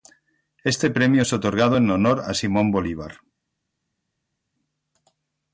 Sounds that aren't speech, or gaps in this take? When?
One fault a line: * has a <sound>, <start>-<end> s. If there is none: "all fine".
all fine